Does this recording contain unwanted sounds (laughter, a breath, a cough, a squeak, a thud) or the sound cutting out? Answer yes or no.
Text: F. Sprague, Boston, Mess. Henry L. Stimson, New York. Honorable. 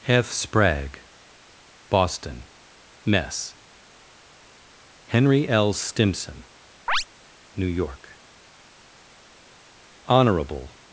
yes